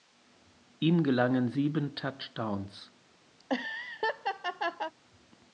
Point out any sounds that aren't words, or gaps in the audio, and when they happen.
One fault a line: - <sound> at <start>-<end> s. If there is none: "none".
- laugh at 3.4-4.9 s